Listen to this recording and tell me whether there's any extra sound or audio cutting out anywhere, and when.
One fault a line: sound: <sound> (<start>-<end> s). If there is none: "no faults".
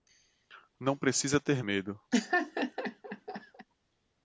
sound: laugh (2.1-3.7 s)